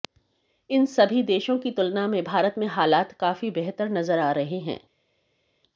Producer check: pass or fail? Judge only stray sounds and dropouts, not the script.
pass